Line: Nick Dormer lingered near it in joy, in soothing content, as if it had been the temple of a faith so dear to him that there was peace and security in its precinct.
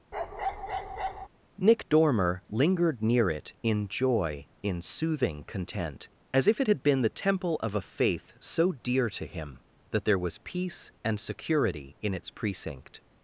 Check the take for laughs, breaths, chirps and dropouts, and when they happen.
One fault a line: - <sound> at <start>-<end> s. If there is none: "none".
- bark at 0.1-1.3 s